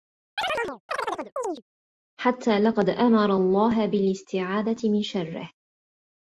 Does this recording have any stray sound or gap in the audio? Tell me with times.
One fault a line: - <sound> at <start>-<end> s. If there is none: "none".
- chirp at 0.4-1.6 s